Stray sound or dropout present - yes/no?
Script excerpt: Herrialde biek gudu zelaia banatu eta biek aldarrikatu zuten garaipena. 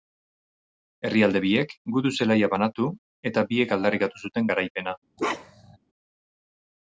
yes